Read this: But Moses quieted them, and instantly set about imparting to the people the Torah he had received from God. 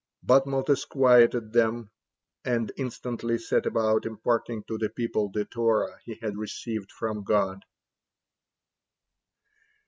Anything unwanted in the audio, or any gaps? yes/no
no